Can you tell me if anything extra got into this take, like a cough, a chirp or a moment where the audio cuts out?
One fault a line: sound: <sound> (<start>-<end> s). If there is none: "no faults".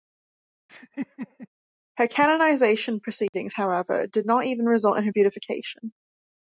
sound: laugh (0.7-1.5 s)
sound: dropout (3.3-3.3 s)